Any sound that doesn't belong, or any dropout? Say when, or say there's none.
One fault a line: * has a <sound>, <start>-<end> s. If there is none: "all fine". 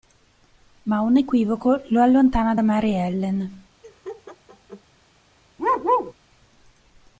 * has a laugh, 3.8-4.8 s
* has a bark, 5.6-6.1 s